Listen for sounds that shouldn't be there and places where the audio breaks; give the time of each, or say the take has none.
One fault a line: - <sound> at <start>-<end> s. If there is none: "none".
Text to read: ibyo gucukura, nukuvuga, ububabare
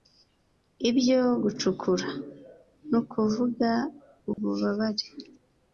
- dropout at 4.3-4.4 s